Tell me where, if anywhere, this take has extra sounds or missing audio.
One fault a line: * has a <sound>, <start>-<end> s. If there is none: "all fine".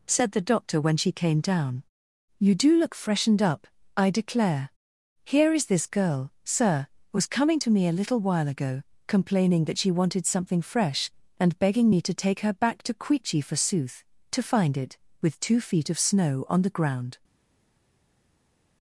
all fine